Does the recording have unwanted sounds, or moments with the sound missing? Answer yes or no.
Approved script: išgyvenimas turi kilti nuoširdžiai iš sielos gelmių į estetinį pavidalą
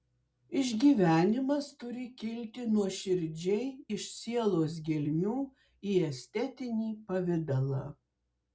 no